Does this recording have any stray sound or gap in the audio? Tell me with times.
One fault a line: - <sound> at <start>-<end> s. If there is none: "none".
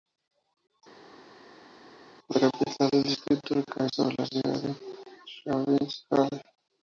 none